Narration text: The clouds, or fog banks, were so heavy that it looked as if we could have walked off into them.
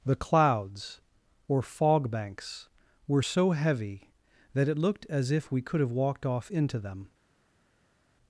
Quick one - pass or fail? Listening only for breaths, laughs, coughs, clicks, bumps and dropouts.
pass